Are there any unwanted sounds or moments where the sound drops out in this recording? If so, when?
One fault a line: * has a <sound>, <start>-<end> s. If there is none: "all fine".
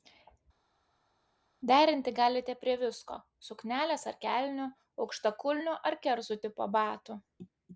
all fine